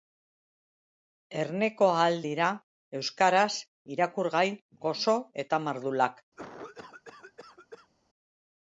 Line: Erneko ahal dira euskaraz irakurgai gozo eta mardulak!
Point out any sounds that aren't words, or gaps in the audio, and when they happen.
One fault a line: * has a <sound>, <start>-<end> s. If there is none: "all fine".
* has a cough, 6.4-7.9 s